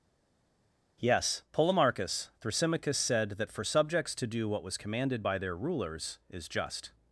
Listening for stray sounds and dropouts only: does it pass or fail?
pass